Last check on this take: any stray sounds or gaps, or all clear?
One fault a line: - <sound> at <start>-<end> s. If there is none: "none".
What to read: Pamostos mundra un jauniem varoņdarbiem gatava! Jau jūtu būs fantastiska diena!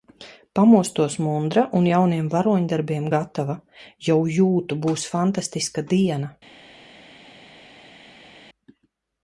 none